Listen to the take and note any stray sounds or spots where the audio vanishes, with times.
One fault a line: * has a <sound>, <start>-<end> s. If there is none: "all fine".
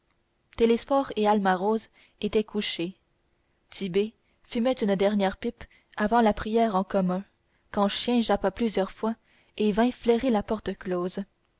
all fine